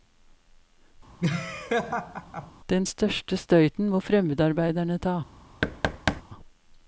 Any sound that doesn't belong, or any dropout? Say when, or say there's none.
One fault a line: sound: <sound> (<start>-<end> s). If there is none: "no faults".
sound: laugh (1.2-2.5 s)
sound: thud (5.6-6.2 s)